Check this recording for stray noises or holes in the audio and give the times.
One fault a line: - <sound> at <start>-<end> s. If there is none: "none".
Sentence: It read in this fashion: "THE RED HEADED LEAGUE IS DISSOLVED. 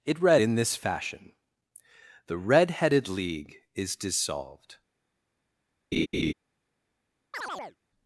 - laugh at 5.9-6.3 s
- chirp at 7.3-7.8 s